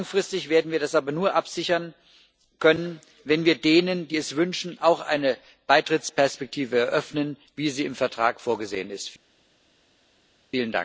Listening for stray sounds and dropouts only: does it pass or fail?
pass